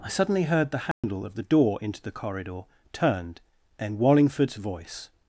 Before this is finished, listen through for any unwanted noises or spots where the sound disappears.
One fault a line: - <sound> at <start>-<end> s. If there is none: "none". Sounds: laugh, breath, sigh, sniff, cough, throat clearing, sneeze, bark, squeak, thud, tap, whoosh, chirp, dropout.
- dropout at 0.9-1.0 s